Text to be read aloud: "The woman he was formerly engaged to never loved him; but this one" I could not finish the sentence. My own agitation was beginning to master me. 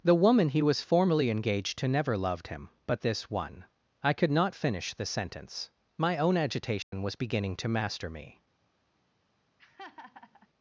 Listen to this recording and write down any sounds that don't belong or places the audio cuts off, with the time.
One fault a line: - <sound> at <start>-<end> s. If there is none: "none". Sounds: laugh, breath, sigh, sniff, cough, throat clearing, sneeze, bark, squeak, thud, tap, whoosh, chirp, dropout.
- dropout at 6.8-6.9 s
- laugh at 9.6-10.5 s